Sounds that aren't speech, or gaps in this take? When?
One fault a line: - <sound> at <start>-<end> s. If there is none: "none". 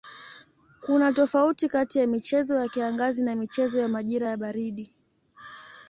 none